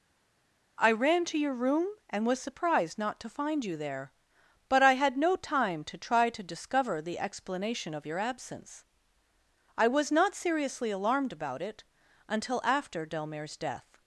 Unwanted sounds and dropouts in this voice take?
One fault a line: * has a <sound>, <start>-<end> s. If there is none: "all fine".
all fine